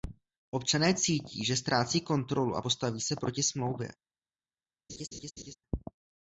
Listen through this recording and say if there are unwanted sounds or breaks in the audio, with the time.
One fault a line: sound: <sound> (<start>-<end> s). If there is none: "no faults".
sound: laugh (4.9-5.5 s)